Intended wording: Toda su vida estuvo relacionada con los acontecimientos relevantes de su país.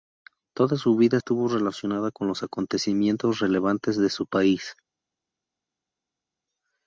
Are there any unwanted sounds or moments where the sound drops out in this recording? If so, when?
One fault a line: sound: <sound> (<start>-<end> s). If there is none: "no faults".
no faults